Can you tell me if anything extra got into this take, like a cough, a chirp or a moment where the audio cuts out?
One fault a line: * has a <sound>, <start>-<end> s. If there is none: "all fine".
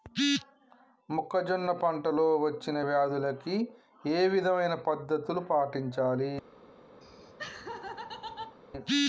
* has a laugh, 7.0-8.6 s